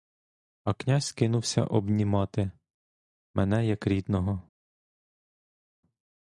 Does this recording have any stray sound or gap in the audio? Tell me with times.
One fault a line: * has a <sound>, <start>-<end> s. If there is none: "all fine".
all fine